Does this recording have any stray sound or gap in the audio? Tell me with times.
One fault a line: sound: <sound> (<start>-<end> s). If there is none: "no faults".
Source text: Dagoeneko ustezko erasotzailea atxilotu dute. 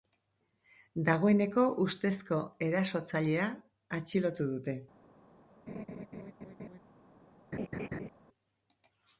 sound: laugh (5.7-6.8 s)
sound: laugh (7.5-8.1 s)